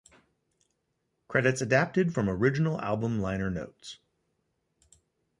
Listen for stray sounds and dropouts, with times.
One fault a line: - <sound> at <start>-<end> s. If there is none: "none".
none